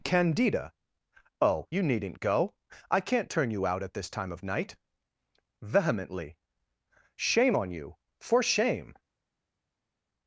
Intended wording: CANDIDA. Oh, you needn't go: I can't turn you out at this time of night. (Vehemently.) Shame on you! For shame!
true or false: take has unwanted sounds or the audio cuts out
false